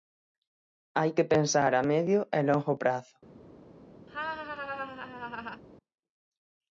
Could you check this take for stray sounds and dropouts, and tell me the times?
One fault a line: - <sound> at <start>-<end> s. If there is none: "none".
- laugh at 4.1-5.6 s